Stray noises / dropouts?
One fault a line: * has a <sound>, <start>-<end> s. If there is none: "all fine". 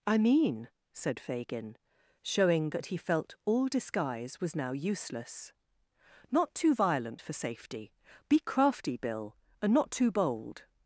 all fine